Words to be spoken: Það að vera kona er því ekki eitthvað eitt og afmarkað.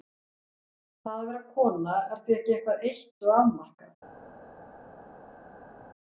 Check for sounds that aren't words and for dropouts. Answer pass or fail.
pass